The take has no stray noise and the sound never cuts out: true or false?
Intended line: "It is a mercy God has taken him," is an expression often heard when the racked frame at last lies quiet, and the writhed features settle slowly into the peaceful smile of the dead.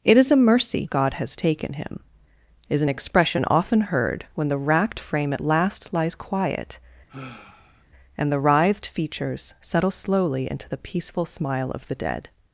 false